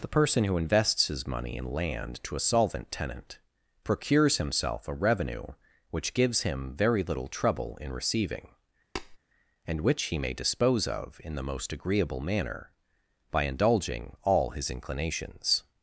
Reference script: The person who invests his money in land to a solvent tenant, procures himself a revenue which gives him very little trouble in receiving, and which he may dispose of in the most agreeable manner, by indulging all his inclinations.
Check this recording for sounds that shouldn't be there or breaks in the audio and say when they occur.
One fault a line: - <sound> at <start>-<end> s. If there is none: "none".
- tap at 9.0-9.2 s